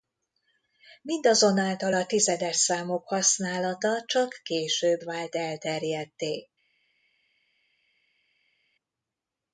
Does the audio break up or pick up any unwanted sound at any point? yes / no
no